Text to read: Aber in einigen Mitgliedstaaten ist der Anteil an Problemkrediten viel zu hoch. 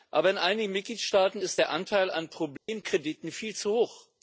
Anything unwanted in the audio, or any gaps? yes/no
yes